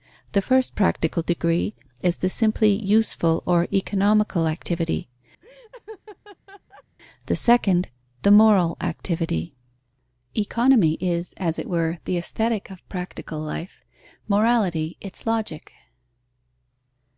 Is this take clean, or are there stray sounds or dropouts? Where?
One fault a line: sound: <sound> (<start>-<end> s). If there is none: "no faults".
sound: laugh (5.4-6.8 s)